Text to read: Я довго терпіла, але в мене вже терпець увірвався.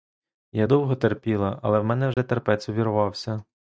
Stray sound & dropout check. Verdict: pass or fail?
fail